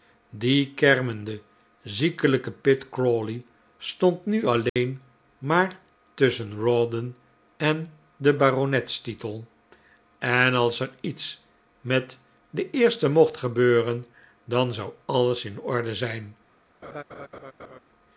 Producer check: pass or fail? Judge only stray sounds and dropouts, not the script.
fail